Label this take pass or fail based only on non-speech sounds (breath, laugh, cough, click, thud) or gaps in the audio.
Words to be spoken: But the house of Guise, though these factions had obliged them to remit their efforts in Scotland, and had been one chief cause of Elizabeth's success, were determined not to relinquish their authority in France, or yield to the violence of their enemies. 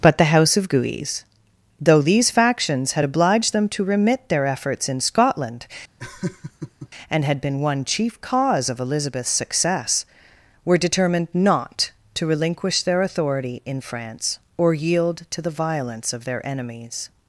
fail